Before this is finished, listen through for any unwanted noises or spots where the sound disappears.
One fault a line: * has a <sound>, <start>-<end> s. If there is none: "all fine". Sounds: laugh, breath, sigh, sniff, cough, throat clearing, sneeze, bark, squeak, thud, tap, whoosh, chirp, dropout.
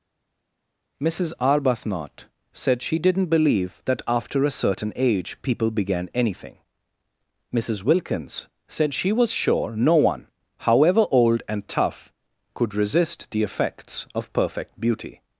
all fine